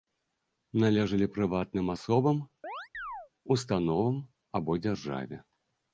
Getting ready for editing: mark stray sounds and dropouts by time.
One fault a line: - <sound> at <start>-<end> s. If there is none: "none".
- chirp at 2.6-3.3 s